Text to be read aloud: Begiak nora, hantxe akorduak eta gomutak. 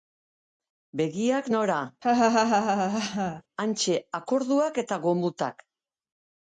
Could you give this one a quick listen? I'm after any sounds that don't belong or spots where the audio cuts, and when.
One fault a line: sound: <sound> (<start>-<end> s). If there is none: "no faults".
sound: laugh (2.0-3.4 s)